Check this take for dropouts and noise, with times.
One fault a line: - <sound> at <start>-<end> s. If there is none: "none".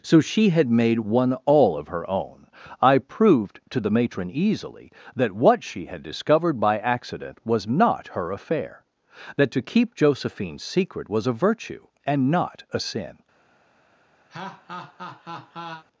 - laugh at 14.3-15.8 s